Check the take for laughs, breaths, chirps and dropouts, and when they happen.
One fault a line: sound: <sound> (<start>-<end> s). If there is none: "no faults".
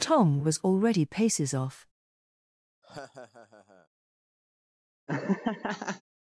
sound: laugh (2.8-3.9 s)
sound: laugh (5.1-6.0 s)